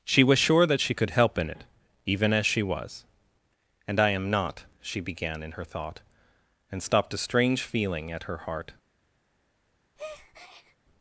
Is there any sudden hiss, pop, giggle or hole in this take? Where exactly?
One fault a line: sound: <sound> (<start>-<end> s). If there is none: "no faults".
sound: breath (10.0-10.8 s)